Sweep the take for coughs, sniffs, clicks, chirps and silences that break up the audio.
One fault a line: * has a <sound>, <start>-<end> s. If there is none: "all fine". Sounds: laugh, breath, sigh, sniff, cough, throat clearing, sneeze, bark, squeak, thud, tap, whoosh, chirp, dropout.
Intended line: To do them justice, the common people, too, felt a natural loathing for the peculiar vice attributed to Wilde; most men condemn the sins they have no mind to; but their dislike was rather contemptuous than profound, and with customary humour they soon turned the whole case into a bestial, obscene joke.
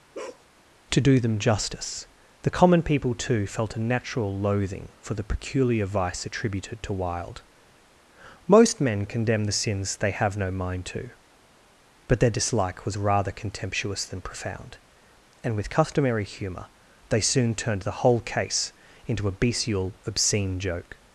* has a bark, 0.1-0.5 s